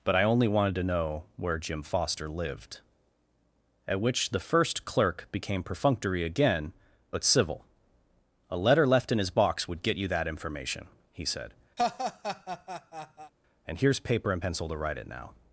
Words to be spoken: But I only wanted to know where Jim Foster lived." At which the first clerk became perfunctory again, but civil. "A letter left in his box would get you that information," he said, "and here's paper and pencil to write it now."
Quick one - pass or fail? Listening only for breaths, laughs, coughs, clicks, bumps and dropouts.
fail